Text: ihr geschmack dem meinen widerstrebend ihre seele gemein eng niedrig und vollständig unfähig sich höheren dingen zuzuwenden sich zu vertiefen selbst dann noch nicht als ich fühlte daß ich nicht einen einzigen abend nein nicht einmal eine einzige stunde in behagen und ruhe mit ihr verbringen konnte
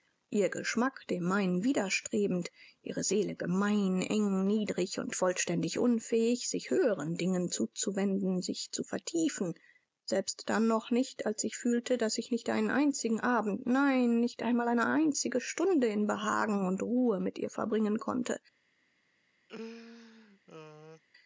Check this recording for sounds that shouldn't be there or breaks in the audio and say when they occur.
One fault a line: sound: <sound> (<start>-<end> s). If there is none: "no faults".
sound: laugh (19.5-21.0 s)